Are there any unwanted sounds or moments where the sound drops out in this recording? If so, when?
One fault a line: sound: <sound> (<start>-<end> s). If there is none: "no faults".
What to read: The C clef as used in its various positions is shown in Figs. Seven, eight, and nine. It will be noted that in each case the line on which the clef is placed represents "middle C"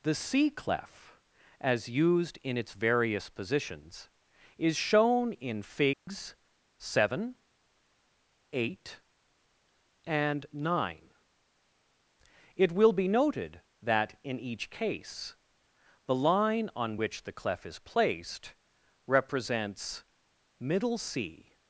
sound: dropout (5.9-6.1 s)